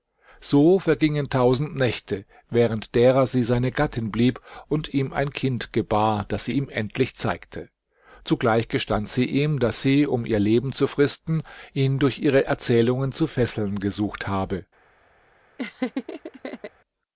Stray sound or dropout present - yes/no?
yes